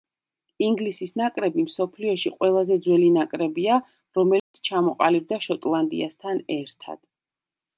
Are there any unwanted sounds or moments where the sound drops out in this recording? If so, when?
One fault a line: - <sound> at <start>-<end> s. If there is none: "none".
- dropout at 4.4-4.5 s